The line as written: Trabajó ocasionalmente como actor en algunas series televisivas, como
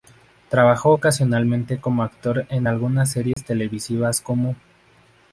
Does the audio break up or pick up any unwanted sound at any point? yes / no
yes